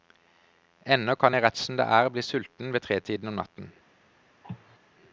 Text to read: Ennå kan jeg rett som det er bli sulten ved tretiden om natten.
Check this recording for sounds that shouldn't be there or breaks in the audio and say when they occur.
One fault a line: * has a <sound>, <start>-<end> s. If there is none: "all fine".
* has a cough, 4.4-4.8 s